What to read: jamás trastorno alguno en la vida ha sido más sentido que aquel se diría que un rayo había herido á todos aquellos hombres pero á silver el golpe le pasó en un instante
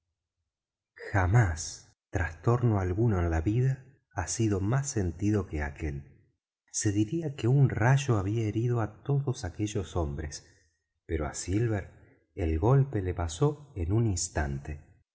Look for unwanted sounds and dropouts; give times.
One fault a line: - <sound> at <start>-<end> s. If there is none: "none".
none